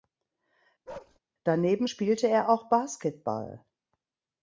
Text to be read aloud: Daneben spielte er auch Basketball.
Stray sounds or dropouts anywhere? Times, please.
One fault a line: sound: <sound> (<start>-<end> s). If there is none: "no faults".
sound: bark (0.9-1.2 s)